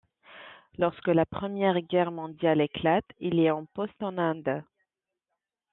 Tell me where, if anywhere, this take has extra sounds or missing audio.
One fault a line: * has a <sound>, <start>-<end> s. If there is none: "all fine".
all fine